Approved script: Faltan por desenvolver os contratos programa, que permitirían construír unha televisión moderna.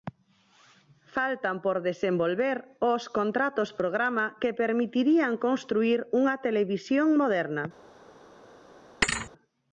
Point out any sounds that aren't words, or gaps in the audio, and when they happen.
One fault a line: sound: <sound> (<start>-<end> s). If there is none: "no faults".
sound: thud (9.0-9.3 s)